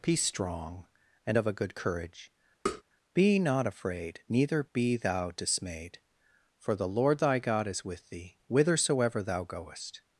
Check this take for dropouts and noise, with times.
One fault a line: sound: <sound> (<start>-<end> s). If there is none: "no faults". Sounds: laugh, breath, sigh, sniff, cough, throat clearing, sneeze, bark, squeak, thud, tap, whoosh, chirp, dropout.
sound: tap (2.7-2.8 s)